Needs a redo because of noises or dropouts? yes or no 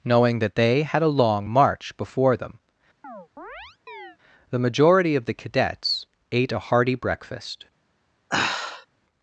yes